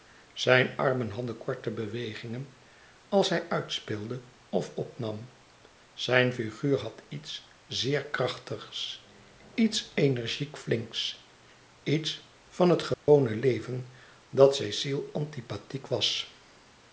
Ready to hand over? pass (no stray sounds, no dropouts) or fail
fail